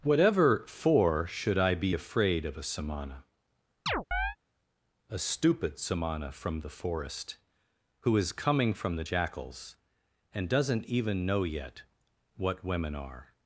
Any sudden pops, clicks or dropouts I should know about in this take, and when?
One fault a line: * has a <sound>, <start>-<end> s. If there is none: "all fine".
* has a chirp, 3.9-4.4 s